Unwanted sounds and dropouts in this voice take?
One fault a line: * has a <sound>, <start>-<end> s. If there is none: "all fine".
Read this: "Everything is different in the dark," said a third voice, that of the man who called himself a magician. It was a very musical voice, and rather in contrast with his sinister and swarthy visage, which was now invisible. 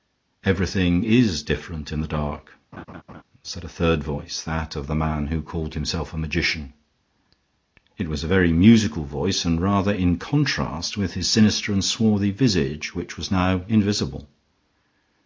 * has a laugh, 2.7-3.2 s